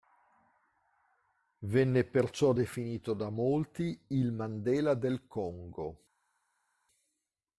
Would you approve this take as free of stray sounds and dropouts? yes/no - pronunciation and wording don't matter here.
yes